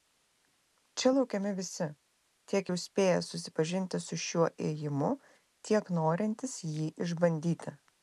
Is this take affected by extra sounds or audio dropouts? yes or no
no